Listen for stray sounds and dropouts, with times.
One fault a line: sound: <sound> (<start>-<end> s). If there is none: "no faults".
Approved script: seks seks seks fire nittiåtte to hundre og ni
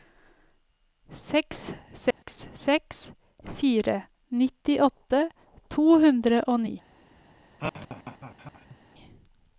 sound: dropout (2.1-2.2 s)
sound: laugh (7.6-8.8 s)